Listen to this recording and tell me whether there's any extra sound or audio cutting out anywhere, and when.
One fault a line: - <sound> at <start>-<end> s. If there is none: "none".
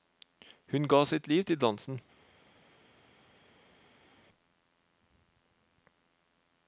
none